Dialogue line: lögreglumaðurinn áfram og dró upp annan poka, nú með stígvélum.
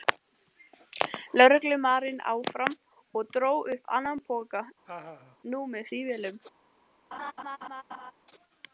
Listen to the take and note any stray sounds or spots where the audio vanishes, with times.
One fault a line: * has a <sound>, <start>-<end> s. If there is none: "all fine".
* has a laugh, 4.9-5.4 s
* has a laugh, 7.1-8.1 s